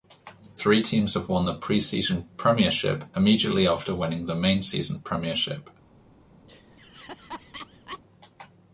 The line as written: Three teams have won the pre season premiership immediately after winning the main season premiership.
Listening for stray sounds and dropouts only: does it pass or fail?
fail